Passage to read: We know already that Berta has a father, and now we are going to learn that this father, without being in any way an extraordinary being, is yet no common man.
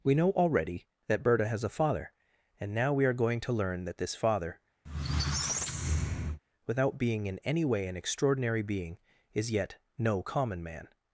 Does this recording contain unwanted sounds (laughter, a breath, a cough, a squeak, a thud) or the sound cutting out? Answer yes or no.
yes